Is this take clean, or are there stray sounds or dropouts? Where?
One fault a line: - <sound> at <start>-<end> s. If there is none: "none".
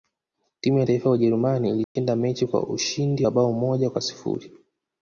- dropout at 1.8-2.0 s